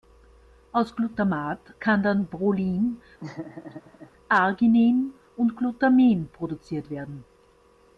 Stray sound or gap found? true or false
true